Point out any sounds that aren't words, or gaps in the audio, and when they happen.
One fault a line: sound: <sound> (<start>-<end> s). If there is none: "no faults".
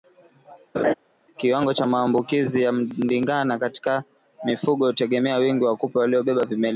sound: laugh (0.7-0.9 s)